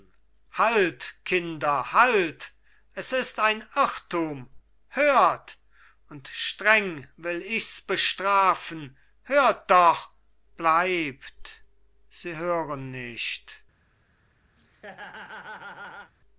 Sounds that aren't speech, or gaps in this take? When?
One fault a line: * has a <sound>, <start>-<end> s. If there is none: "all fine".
* has a laugh, 14.6-16.1 s